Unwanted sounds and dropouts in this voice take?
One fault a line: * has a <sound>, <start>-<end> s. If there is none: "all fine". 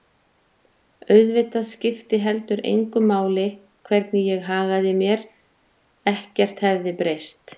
all fine